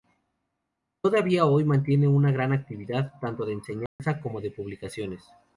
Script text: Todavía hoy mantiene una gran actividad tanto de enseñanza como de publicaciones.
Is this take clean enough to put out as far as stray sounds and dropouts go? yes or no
no